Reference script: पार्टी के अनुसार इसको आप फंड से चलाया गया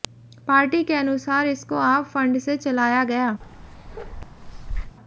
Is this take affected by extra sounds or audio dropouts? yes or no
yes